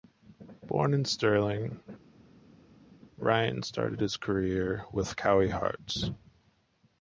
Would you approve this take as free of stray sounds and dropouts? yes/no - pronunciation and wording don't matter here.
yes